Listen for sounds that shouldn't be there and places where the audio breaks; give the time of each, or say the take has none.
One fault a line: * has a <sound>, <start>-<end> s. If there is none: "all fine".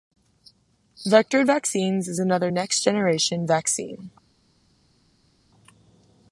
all fine